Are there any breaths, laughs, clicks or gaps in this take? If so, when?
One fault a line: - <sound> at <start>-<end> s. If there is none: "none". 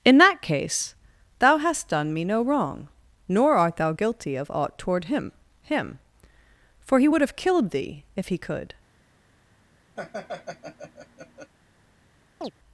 - laugh at 10.0-11.5 s
- chirp at 12.4-12.5 s